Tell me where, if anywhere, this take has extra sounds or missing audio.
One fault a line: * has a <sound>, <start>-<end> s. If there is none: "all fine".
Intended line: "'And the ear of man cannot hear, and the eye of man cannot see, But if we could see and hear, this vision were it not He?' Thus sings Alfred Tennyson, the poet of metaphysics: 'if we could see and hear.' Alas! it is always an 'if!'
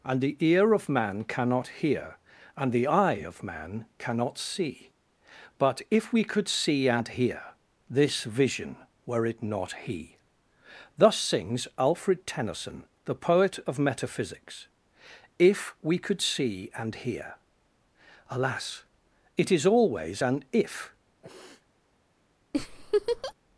* has a sniff, 21.2-21.7 s
* has a laugh, 22.5-23.3 s